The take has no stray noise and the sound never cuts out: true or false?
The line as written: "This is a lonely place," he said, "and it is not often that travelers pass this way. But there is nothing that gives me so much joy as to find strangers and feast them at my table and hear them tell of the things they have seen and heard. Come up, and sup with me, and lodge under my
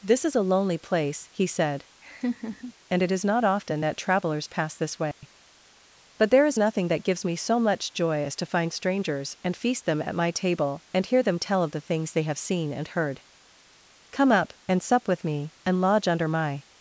false